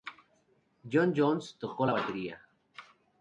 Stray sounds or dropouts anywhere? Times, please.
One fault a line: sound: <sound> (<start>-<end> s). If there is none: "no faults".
no faults